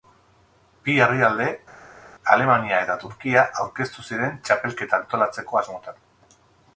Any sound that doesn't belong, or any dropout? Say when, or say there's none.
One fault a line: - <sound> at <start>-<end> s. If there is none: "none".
none